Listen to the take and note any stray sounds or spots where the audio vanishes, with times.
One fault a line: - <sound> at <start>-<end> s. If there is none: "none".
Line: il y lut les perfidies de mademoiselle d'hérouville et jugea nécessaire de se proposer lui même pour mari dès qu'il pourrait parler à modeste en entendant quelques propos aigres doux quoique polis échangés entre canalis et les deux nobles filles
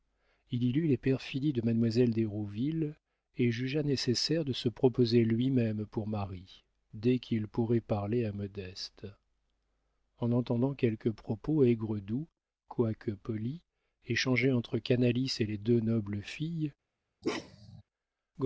- bark at 17.2-17.8 s